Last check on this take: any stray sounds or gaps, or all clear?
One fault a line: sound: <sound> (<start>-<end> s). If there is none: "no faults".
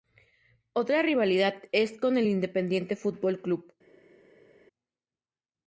no faults